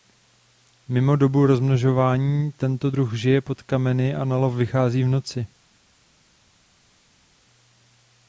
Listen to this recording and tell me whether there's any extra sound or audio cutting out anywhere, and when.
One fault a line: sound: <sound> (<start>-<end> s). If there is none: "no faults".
no faults